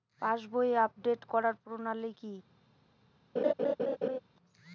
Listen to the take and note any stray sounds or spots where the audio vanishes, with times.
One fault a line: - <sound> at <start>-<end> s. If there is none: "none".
- laugh at 3.4-4.2 s